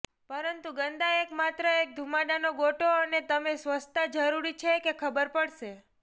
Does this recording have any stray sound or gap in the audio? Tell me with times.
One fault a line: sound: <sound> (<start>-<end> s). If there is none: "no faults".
no faults